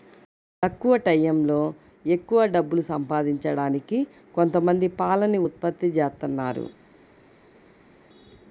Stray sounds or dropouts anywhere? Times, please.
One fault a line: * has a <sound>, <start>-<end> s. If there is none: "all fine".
all fine